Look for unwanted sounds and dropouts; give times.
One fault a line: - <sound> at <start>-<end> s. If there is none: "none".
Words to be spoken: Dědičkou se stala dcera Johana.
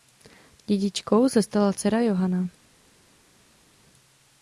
none